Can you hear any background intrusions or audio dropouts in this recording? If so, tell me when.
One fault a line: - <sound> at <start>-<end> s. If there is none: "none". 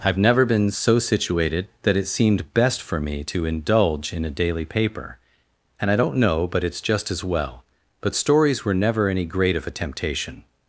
none